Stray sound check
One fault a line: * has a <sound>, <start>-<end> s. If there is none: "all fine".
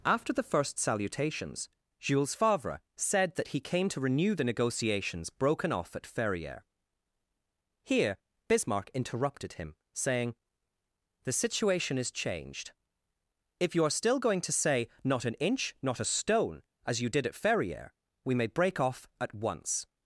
all fine